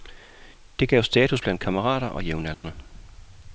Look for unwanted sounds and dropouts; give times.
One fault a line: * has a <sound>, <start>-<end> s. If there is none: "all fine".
* has a dropout, 2.5-2.6 s